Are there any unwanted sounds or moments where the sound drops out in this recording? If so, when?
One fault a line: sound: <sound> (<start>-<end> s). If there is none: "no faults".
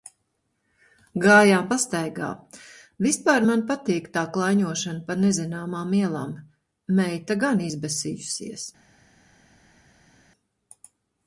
no faults